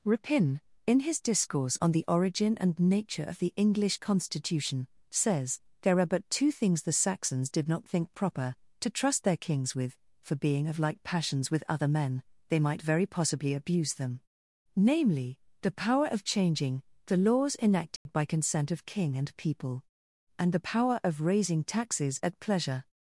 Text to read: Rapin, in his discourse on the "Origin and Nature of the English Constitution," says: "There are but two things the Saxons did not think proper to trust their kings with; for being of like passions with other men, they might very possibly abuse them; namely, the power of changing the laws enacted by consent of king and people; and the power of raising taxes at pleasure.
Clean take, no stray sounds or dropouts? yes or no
no